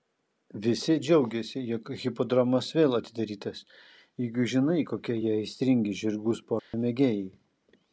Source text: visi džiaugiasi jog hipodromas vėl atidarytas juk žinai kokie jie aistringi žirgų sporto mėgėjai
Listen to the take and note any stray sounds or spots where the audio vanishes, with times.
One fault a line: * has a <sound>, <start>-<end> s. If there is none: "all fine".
* has a dropout, 6.6-6.7 s